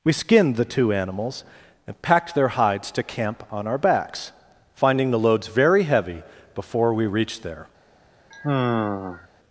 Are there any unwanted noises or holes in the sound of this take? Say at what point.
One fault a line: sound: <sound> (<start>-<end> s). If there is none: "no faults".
sound: sigh (8.3-9.3 s)